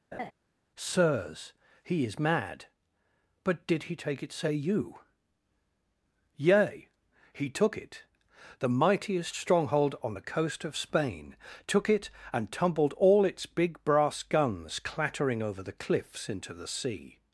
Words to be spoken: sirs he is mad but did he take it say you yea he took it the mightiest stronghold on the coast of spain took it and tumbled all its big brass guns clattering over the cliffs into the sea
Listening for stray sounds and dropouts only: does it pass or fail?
fail